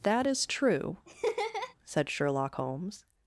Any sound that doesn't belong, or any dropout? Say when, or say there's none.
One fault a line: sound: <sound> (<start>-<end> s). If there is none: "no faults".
sound: laugh (1.1-1.7 s)